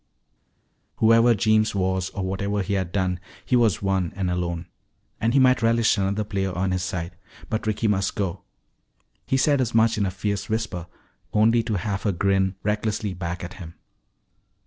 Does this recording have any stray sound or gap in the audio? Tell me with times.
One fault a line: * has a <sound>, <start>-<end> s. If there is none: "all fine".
all fine